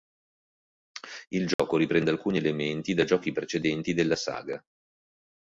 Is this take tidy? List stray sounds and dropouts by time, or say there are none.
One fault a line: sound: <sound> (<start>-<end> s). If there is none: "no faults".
sound: dropout (1.5-1.6 s)